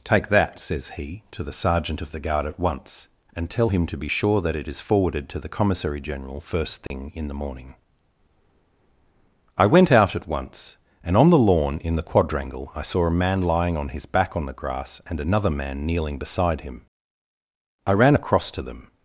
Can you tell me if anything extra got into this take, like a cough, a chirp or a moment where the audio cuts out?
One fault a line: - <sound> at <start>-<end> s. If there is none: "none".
- dropout at 6.9-6.9 s